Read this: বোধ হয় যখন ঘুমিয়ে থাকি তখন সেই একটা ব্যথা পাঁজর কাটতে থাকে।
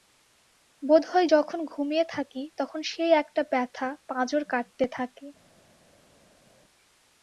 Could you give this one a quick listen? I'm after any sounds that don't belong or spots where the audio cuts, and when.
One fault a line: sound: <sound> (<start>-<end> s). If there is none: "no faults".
no faults